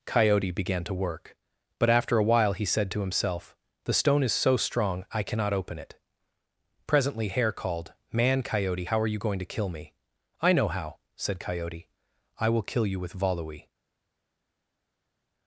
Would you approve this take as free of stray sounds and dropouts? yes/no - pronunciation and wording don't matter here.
yes